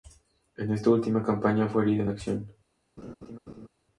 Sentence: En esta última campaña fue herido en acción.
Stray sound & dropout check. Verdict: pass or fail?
fail